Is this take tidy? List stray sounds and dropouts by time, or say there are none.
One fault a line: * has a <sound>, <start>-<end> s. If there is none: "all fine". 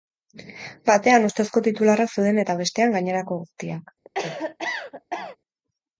* has a cough, 4.0-5.4 s